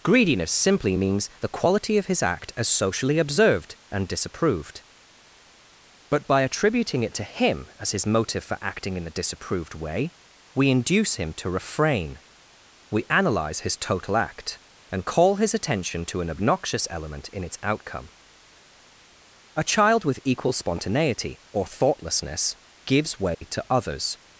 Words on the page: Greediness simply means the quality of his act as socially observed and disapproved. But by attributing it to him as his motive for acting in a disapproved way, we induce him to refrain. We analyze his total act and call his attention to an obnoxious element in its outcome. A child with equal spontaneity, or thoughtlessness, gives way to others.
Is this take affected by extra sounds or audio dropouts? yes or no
yes